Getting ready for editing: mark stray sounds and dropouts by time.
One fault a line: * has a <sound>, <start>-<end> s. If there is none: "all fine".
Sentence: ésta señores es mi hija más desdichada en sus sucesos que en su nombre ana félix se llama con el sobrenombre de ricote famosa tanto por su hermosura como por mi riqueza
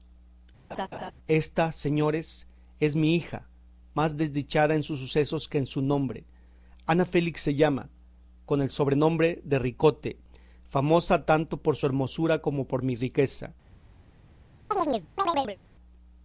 * has a laugh, 0.7-1.1 s
* has a chirp, 14.7-15.6 s